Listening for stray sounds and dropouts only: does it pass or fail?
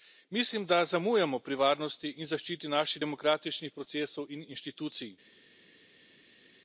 pass